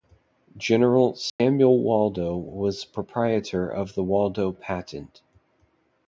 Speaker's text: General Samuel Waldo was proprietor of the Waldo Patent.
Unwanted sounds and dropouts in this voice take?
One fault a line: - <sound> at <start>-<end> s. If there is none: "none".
- dropout at 1.3-1.4 s